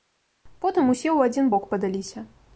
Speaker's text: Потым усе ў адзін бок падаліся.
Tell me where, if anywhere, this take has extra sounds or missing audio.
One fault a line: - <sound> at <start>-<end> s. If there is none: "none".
none